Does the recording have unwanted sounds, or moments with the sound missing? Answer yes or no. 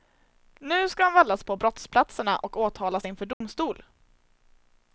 yes